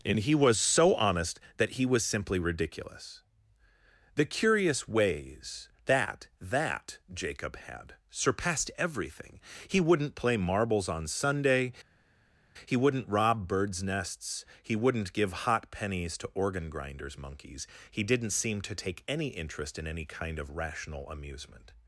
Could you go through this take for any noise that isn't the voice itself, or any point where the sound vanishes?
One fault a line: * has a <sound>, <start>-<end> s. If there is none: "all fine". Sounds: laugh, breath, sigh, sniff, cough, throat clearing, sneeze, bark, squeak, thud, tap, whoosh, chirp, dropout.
all fine